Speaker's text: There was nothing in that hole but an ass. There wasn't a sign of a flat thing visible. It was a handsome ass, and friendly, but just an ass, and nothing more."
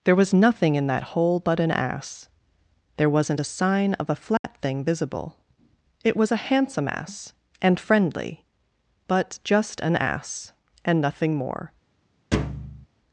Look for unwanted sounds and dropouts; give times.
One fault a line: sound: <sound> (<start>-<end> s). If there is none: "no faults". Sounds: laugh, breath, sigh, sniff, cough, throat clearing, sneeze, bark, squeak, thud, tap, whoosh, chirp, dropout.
sound: dropout (4.4-4.4 s)
sound: thud (12.3-12.9 s)